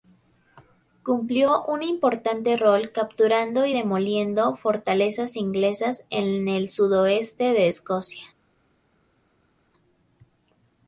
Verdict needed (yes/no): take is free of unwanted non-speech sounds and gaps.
yes